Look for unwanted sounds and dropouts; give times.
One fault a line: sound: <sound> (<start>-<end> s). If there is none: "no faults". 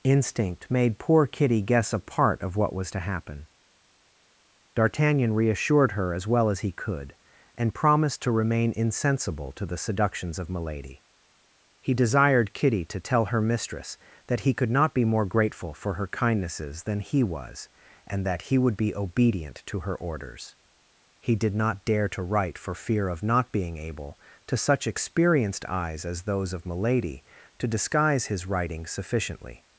no faults